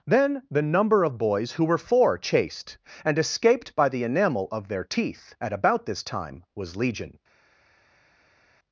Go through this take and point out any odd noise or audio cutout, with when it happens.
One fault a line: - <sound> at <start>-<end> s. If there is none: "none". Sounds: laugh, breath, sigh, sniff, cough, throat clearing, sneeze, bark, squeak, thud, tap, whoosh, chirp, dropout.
none